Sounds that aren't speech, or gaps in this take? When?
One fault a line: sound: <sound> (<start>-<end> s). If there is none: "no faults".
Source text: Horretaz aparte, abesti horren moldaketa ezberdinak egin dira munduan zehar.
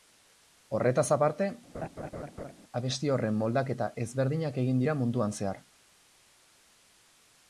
sound: laugh (1.7-2.5 s)